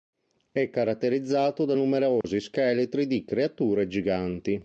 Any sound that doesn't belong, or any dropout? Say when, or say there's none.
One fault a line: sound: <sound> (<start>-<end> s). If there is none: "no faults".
sound: dropout (2.2-2.2 s)